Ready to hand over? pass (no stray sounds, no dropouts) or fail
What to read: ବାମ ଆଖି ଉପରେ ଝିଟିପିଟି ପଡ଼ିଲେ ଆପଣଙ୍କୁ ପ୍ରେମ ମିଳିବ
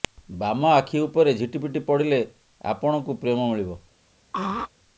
fail